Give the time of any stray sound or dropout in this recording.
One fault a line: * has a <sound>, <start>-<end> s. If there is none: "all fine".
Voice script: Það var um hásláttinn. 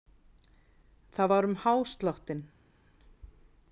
all fine